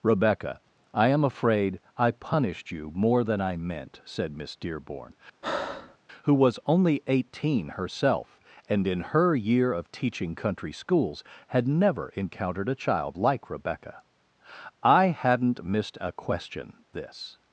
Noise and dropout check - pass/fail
fail